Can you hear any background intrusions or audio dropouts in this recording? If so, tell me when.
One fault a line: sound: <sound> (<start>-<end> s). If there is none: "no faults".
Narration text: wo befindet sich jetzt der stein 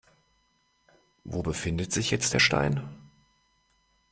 no faults